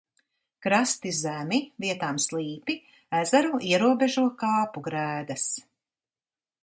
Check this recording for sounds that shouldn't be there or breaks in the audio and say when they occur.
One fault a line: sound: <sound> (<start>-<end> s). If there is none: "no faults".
no faults